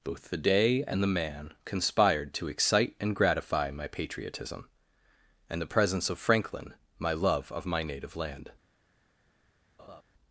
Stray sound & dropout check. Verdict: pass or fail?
fail